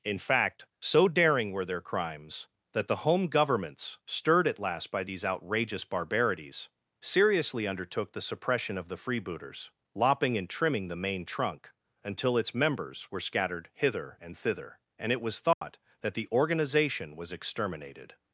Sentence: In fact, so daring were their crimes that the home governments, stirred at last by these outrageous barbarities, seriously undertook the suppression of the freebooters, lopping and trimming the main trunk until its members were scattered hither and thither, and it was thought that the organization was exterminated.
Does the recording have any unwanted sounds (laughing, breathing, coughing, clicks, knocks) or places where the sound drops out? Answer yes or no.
yes